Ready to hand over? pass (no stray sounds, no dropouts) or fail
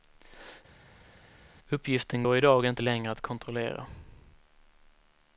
pass